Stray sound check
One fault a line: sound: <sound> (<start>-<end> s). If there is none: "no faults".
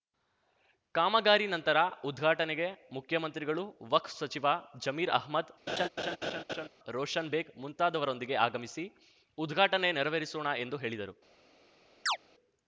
sound: laugh (5.7-6.7 s)
sound: chirp (12.1-12.2 s)